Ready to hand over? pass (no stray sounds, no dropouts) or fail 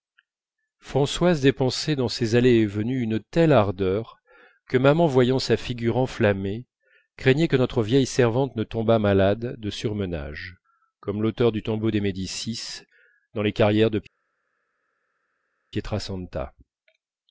pass